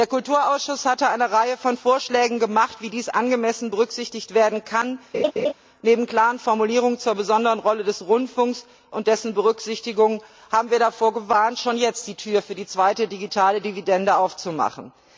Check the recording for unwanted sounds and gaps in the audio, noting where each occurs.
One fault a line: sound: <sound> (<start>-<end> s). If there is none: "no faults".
sound: laugh (5.1-5.5 s)